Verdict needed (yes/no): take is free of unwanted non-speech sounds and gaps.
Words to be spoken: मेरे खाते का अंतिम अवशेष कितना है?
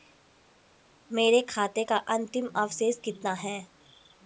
yes